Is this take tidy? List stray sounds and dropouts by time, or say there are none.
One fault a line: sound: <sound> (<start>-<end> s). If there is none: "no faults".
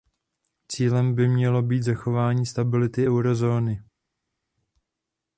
no faults